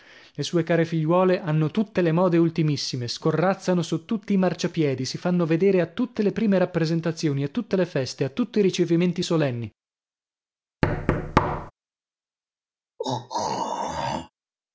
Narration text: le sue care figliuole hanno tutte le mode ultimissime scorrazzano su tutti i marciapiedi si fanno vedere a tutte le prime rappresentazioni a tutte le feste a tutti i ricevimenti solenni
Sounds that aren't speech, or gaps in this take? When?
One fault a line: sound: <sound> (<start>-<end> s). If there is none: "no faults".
sound: thud (10.8-11.7 s)
sound: throat clearing (13.0-14.3 s)